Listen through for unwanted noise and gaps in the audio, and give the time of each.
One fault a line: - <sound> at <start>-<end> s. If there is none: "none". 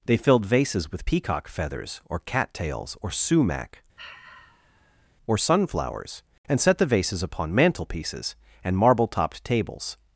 - sigh at 4.0-5.1 s